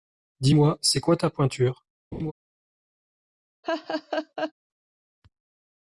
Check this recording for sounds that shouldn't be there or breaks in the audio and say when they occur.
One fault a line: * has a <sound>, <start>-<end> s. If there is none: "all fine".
* has a laugh, 2.1-2.3 s
* has a laugh, 3.6-4.5 s